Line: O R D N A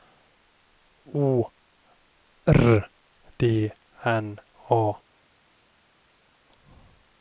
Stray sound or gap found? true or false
false